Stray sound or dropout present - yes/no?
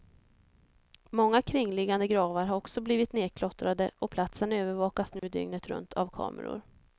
yes